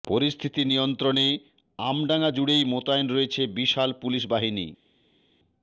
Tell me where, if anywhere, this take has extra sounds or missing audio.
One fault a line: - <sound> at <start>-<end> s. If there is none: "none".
none